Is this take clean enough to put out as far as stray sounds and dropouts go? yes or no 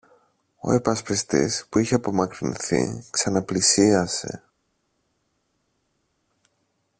yes